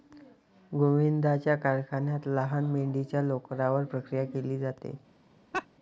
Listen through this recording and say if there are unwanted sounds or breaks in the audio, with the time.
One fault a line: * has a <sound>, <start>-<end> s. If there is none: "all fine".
* has a laugh, 5.5-5.7 s